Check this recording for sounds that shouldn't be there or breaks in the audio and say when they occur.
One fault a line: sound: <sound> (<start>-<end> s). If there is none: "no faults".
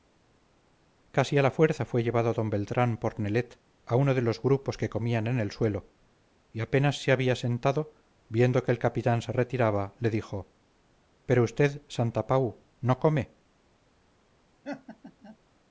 sound: laugh (14.6-15.4 s)